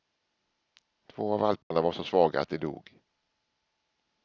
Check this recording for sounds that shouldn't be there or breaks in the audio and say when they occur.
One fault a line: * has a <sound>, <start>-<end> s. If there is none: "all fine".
* has a dropout, 1.6-1.7 s